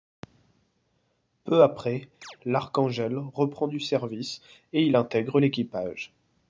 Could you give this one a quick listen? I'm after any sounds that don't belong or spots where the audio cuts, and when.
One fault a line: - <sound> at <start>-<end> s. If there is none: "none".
- chirp at 2.2-2.4 s